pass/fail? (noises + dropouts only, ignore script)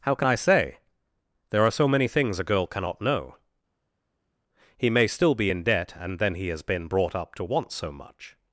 pass